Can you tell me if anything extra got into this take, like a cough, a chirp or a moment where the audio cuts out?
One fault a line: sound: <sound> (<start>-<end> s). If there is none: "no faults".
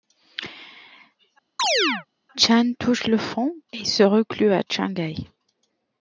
sound: chirp (1.6-2.1 s)